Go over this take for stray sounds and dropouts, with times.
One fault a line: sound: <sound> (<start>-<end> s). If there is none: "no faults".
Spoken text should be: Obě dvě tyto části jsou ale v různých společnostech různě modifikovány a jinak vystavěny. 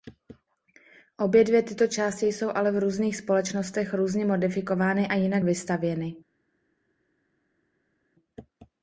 no faults